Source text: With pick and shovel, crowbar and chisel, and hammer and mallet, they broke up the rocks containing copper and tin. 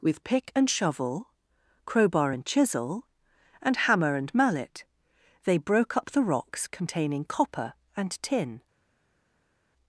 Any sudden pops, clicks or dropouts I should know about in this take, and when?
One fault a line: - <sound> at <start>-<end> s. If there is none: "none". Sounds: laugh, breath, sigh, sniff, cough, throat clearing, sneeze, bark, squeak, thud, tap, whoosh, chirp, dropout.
none